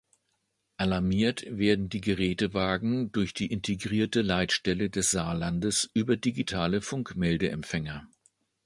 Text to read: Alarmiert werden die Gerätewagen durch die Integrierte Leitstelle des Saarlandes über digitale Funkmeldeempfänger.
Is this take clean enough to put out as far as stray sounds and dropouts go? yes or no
yes